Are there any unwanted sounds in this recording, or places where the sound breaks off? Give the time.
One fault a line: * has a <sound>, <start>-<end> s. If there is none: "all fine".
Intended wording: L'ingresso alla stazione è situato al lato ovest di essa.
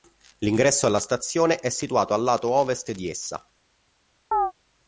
* has a chirp, 4.3-4.5 s